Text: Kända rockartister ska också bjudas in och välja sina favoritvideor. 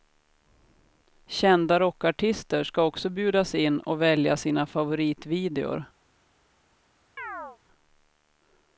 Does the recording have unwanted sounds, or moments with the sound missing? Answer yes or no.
yes